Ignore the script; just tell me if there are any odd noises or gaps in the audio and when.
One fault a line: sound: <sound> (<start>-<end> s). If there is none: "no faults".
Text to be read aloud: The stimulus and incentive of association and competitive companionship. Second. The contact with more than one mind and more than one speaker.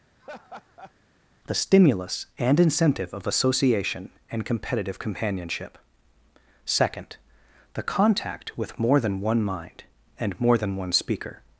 sound: laugh (0.2-0.9 s)